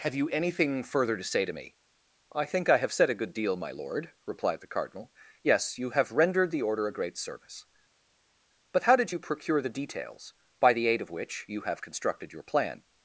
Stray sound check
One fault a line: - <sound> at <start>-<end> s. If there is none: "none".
none